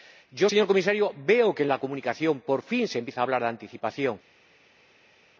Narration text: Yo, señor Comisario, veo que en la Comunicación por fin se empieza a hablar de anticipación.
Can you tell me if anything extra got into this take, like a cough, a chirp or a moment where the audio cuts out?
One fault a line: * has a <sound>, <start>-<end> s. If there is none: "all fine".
all fine